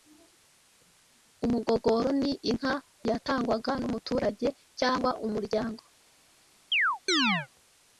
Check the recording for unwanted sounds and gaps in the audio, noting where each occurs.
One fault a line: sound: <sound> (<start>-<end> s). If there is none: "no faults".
sound: chirp (6.7-7.5 s)